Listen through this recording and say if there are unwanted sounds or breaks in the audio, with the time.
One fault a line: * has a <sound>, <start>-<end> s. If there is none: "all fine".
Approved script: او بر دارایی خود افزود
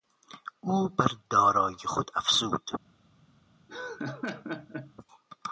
* has a laugh, 3.7-4.9 s